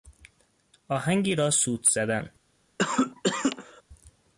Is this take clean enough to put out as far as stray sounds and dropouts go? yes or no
no